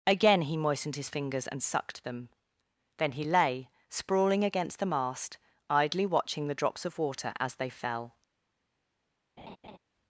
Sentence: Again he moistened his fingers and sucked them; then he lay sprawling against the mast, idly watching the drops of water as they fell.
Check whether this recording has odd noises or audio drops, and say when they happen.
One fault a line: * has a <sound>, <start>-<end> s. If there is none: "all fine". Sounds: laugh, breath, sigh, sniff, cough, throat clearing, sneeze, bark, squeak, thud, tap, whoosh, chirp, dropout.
* has a laugh, 9.4-9.8 s